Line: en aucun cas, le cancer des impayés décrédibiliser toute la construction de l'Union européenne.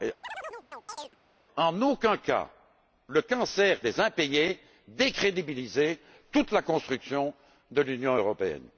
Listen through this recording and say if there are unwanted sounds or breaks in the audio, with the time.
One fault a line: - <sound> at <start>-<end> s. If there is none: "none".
- chirp at 0.2-1.2 s